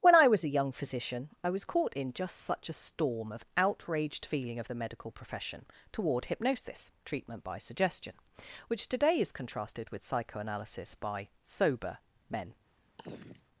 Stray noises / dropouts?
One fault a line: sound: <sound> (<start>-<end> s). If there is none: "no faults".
sound: throat clearing (13.0-13.4 s)